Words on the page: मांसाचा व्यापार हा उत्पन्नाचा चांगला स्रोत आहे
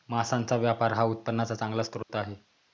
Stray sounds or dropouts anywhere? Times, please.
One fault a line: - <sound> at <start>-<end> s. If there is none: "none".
- dropout at 2.0-2.1 s